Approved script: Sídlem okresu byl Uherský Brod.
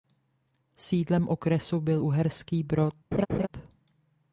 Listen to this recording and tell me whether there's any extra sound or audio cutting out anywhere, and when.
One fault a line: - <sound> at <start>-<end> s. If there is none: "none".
- laugh at 3.1-3.5 s